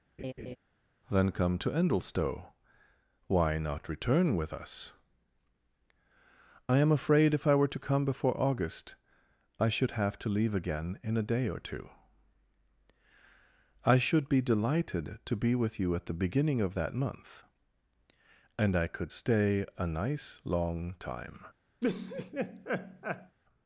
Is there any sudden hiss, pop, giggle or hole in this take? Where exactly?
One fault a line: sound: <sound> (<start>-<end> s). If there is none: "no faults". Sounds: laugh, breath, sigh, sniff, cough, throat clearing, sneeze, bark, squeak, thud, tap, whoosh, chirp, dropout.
sound: laugh (0.2-0.6 s)
sound: laugh (21.8-23.4 s)